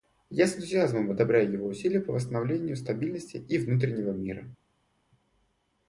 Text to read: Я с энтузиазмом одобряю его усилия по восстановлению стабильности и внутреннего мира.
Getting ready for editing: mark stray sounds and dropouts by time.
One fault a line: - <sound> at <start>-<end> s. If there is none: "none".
none